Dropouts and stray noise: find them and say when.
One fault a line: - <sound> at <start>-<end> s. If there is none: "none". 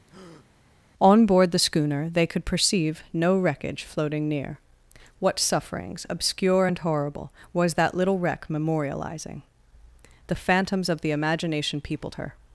- breath at 0.1-0.5 s